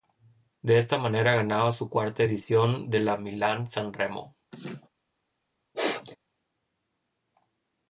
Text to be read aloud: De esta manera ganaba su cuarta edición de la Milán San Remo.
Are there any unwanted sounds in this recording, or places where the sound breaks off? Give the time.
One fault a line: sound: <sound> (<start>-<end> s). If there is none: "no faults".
sound: laugh (4.5-4.9 s)
sound: sneeze (5.7-6.2 s)